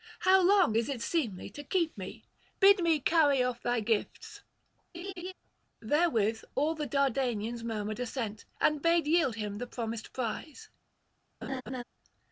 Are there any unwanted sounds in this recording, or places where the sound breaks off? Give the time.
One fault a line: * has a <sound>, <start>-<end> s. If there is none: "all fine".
* has a laugh, 4.9-5.3 s
* has a laugh, 11.4-11.8 s